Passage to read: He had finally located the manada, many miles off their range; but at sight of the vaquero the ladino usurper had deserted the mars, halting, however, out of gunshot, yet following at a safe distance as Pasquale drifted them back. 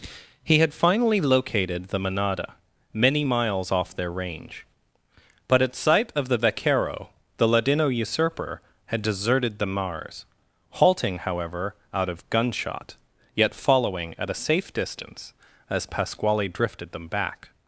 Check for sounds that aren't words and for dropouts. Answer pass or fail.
pass